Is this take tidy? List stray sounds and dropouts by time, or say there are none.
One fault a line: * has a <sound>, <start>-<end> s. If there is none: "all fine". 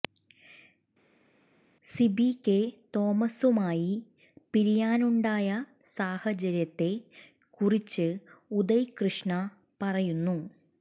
all fine